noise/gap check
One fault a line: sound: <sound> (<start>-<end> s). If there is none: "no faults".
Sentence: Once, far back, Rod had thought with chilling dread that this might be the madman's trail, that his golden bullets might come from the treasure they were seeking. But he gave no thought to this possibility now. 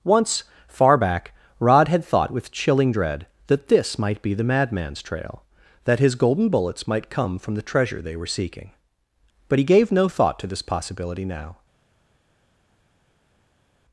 no faults